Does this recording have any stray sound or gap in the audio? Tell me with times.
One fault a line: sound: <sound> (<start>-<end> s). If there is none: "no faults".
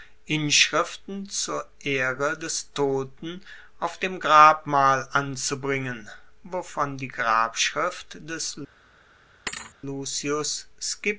sound: thud (9.5-9.8 s)